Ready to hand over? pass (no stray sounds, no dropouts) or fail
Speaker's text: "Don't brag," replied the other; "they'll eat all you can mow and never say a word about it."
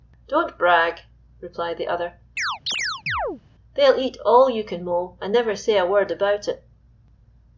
fail